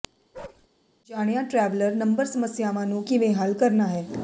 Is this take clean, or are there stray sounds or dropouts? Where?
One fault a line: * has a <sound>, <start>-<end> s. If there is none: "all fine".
* has a bark, 0.3-0.7 s